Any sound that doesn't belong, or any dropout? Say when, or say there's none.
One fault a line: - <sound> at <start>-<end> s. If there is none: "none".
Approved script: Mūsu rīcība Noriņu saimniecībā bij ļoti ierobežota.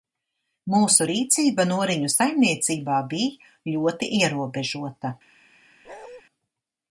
- bark at 5.8-6.2 s